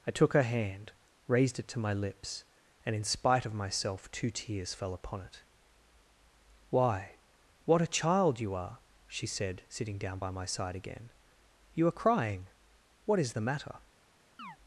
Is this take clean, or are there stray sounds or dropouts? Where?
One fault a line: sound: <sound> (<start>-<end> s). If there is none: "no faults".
sound: chirp (14.4-14.6 s)